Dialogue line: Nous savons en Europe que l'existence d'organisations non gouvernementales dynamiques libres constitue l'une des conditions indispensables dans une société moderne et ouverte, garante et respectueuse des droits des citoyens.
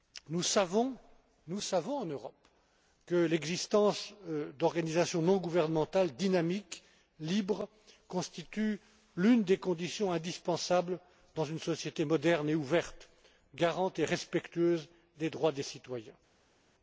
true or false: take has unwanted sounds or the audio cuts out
false